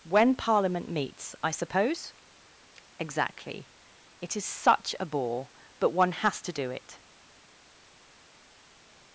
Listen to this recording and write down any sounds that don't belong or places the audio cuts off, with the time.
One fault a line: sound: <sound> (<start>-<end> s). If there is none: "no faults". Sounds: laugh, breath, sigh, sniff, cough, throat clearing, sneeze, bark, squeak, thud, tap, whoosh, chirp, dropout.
no faults